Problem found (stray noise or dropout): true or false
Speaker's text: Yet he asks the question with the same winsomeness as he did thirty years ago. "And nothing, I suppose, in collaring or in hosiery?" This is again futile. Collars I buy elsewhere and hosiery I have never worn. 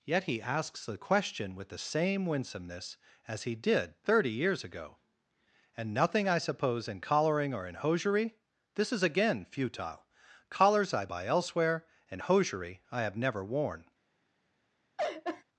true